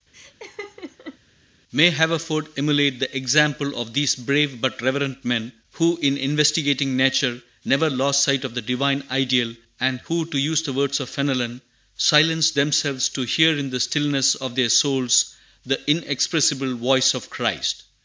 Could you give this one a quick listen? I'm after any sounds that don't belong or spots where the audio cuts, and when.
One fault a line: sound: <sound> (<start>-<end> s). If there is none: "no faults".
sound: laugh (0.1-1.2 s)